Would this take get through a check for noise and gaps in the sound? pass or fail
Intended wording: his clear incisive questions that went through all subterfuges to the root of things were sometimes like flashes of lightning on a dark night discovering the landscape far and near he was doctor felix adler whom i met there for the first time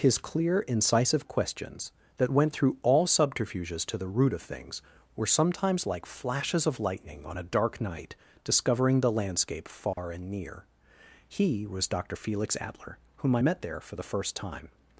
fail